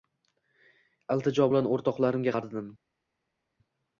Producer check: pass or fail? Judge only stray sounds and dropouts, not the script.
pass